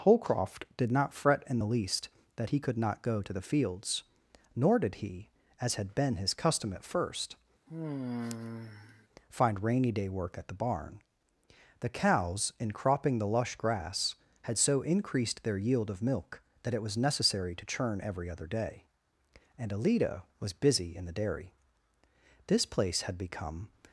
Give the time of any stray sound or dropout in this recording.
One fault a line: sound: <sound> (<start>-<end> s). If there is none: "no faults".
sound: sigh (7.7-9.1 s)